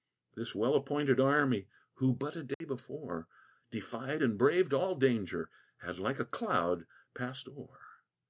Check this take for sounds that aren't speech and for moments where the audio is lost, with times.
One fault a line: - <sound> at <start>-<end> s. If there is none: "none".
- dropout at 2.5-2.6 s